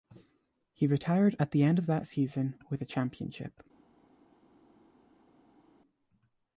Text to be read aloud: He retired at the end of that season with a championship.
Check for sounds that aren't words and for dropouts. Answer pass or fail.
pass